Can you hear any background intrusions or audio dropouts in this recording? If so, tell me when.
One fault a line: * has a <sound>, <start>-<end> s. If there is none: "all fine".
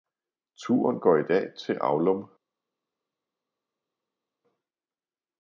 all fine